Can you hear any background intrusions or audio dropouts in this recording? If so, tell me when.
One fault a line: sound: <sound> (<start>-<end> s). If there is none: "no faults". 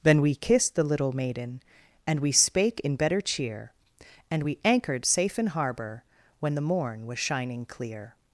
no faults